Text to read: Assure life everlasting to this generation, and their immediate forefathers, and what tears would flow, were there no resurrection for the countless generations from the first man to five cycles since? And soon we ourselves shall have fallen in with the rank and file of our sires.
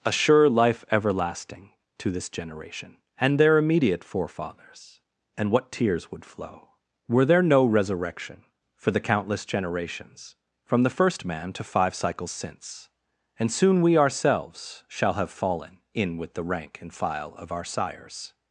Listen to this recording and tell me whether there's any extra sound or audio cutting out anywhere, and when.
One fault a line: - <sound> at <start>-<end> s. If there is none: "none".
none